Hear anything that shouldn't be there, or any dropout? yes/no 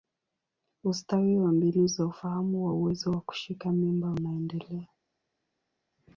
no